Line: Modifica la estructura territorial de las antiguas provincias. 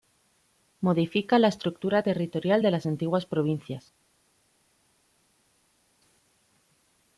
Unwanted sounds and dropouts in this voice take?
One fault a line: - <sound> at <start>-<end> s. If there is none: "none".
none